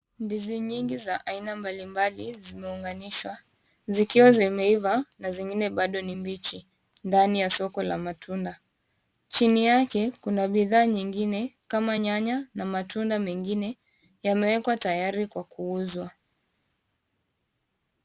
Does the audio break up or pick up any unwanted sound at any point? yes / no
no